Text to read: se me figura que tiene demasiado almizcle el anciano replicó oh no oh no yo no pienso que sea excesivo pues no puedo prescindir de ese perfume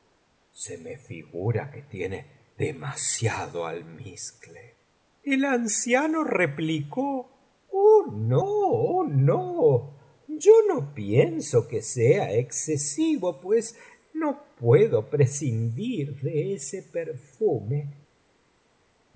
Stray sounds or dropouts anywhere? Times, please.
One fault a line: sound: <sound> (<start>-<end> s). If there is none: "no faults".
no faults